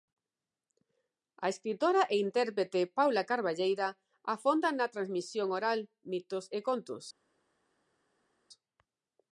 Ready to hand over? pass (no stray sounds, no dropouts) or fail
pass